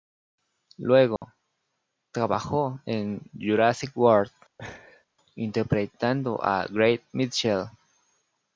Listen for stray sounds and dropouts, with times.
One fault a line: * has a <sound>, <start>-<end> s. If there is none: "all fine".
* has a dropout, 1.2-1.2 s
* has a laugh, 4.6-5.1 s